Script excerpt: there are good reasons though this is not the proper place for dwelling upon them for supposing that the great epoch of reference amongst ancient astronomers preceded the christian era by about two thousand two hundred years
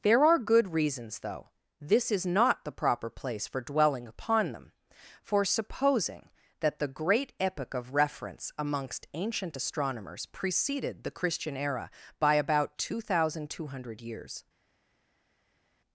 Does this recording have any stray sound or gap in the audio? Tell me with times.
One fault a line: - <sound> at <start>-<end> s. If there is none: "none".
none